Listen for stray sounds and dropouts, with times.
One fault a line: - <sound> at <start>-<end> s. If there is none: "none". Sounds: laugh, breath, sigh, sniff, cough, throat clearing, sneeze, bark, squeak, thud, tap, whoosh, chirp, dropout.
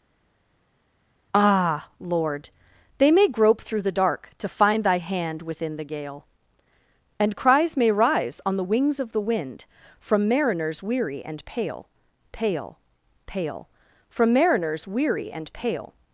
none